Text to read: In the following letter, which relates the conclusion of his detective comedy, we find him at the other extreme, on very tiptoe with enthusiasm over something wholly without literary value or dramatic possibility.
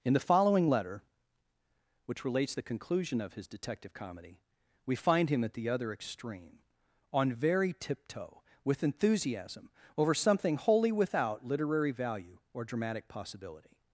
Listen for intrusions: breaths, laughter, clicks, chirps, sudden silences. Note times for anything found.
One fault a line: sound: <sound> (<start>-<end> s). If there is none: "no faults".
no faults